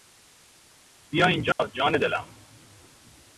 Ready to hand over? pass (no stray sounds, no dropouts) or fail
fail